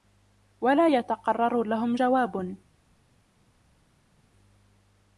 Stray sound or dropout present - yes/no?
no